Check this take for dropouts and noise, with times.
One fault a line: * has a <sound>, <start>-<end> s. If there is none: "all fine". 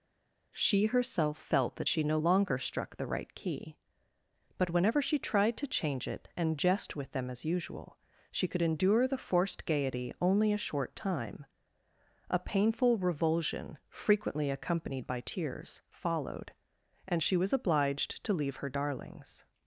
all fine